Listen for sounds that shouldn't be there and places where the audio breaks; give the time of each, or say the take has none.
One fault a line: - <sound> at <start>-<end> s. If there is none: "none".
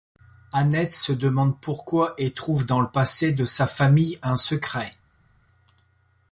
none